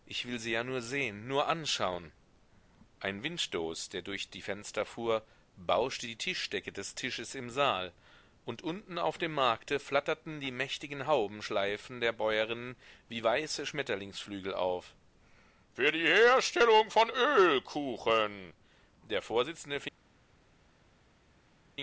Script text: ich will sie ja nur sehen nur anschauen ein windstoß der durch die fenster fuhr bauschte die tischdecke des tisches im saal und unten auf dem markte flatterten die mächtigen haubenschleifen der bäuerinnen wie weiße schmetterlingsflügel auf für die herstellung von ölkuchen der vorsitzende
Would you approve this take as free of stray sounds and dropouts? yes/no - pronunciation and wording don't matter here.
yes